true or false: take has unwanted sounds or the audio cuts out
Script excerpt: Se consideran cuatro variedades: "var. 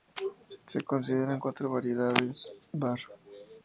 false